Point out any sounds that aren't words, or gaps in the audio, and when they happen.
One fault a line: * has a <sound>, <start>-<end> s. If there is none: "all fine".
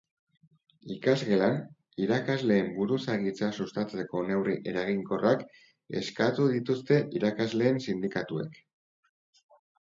all fine